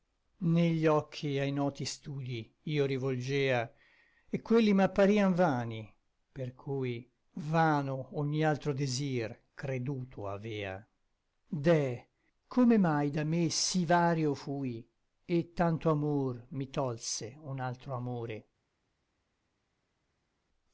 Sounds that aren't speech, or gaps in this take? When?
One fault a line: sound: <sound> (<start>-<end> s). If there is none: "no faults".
no faults